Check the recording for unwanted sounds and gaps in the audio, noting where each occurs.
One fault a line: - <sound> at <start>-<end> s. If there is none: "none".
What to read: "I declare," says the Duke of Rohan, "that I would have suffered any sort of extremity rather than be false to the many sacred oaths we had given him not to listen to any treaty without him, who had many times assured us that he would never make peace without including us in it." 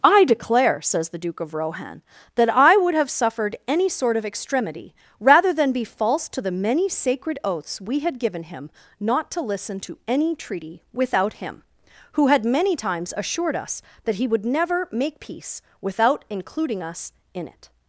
none